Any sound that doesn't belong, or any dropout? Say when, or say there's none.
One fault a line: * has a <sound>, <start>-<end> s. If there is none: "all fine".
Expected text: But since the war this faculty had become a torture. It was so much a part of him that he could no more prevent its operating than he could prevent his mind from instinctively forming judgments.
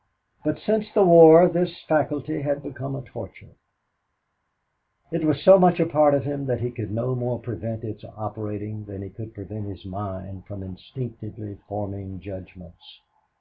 all fine